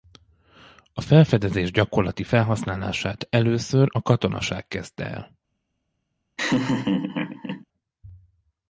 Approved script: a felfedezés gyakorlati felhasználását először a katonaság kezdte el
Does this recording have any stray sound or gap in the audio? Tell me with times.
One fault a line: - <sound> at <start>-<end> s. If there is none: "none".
- laugh at 6.4-7.7 s